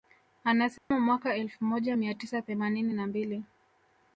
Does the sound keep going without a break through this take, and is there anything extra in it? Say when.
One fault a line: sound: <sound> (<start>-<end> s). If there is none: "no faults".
sound: dropout (0.8-0.9 s)